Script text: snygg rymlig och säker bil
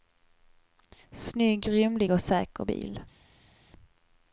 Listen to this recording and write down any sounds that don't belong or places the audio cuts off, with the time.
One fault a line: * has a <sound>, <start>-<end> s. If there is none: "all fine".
all fine